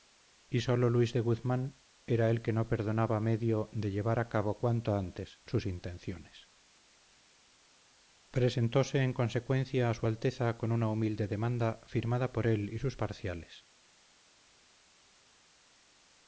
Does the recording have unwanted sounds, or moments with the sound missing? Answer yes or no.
no